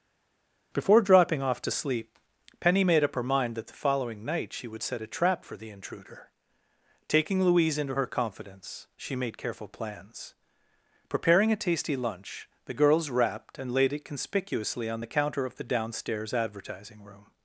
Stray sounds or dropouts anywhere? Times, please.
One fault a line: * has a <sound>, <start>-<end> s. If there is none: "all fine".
all fine